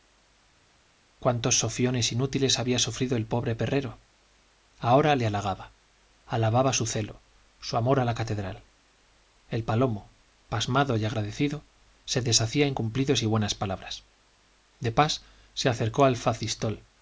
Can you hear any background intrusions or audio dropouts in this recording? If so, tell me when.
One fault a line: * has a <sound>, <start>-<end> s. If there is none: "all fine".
all fine